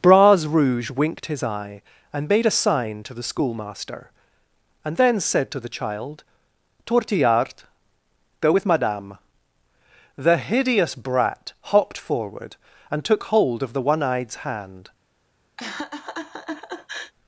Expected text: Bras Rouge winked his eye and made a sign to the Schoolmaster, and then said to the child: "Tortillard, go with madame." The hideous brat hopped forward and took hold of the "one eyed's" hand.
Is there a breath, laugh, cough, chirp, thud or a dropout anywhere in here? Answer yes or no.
yes